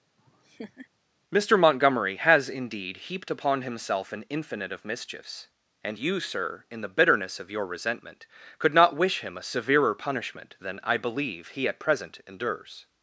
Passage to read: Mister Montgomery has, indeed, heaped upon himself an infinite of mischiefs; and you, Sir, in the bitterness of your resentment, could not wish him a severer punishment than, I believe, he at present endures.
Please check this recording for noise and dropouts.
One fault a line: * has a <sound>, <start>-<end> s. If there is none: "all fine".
* has a laugh, 0.2-0.9 s